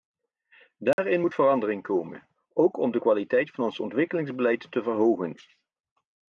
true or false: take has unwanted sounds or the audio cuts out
true